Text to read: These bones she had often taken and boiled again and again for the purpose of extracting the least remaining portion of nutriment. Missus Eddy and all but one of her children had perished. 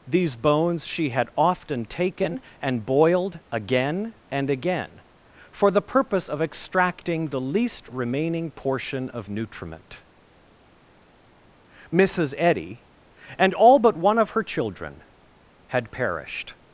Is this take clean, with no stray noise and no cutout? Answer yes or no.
yes